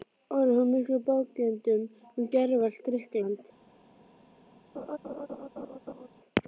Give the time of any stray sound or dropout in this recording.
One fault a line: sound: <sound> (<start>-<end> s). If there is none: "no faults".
sound: laugh (4.7-6.1 s)